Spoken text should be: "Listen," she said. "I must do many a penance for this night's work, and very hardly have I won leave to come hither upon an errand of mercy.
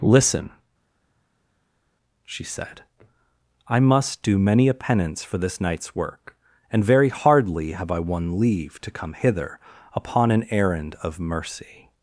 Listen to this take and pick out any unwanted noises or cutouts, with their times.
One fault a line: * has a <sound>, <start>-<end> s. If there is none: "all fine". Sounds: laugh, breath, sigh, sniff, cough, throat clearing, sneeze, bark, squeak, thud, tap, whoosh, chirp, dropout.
all fine